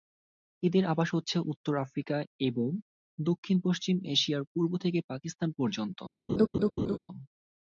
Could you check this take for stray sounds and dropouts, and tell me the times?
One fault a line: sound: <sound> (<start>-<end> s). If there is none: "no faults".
sound: laugh (6.3-7.0 s)